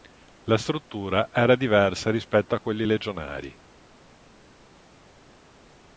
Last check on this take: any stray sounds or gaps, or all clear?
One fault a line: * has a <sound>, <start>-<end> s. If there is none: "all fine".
all fine